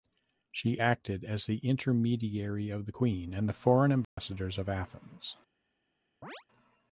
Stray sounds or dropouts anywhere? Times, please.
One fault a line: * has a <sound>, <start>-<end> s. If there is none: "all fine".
* has a dropout, 4.0-4.2 s
* has a chirp, 6.2-6.4 s